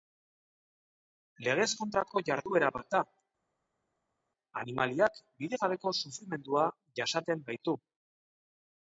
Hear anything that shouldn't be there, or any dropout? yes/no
no